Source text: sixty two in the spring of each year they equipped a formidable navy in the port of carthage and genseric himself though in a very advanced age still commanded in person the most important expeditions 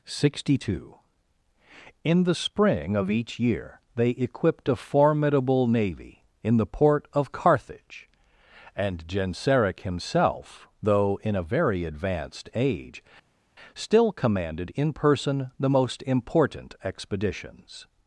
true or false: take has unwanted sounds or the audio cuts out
false